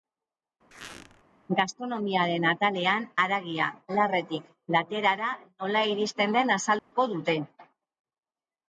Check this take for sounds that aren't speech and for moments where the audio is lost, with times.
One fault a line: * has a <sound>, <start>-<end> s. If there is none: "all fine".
* has a squeak, 0.7-1.2 s
* has a dropout, 6.8-6.9 s